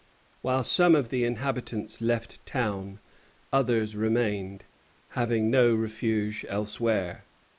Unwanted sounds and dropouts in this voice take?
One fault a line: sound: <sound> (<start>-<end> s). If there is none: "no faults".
no faults